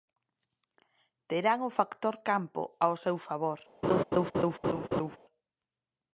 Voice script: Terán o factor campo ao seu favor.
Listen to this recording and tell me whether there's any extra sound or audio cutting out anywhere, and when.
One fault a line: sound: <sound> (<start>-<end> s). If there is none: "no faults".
sound: laugh (3.8-5.2 s)